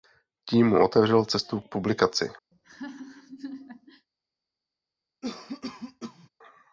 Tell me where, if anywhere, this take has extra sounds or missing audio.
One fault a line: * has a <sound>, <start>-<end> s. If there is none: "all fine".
* has a laugh, 2.5-4.1 s
* has a cough, 5.2-6.3 s